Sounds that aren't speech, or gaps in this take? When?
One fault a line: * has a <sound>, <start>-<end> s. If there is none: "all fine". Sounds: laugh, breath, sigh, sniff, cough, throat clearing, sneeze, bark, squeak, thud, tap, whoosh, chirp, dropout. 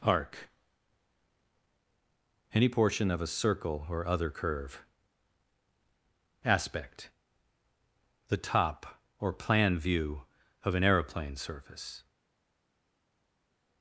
all fine